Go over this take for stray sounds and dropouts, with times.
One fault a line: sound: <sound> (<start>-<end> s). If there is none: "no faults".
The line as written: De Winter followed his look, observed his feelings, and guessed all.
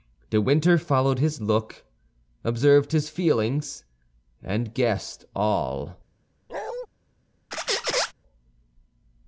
sound: bark (6.5-6.9 s)
sound: squeak (7.5-8.1 s)